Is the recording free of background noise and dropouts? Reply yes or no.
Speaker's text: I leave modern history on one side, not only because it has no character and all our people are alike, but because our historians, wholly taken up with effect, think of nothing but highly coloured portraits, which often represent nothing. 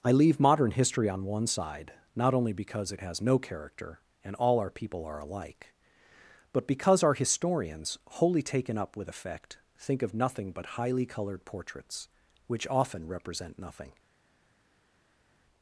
yes